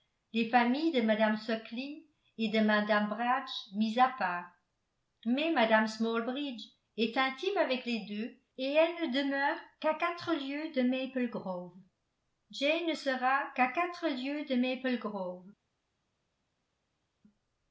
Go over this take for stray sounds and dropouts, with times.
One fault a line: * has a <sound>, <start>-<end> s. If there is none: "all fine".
all fine